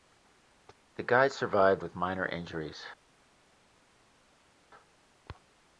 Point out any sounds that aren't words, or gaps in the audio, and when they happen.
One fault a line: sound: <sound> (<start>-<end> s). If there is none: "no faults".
no faults